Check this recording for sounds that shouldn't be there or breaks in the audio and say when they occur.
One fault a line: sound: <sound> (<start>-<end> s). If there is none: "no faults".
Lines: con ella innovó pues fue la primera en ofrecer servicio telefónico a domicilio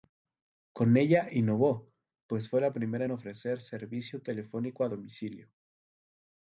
no faults